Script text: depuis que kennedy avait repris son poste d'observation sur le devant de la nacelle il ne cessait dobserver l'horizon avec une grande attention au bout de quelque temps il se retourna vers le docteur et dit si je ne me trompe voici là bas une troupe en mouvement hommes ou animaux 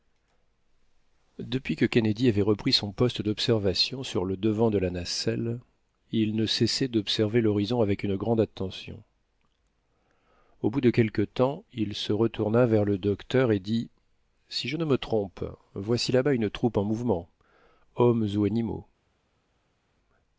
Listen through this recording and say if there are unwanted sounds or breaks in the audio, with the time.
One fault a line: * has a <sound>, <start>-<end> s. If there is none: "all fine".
all fine